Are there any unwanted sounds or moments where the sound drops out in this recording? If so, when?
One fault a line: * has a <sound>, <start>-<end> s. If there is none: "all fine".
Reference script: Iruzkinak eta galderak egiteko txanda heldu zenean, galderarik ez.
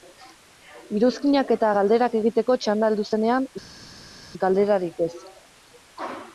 all fine